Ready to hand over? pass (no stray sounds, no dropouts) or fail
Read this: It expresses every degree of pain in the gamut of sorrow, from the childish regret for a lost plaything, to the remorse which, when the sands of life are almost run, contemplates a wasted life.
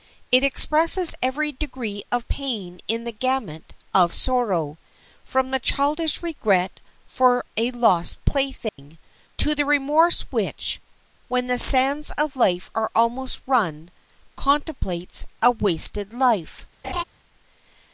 fail